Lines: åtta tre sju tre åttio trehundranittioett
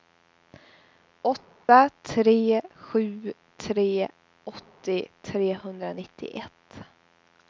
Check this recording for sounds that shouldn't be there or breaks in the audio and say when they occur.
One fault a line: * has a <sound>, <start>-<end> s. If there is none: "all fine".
* has a dropout, 1.6-1.7 s